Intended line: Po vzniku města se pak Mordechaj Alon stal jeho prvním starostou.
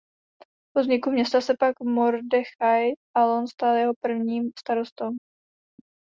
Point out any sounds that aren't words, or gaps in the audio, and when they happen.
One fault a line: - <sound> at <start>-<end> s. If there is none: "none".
none